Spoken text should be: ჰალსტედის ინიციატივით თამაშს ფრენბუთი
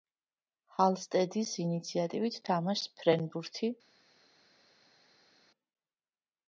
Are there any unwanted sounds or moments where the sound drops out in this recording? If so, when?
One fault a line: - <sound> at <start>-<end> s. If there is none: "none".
none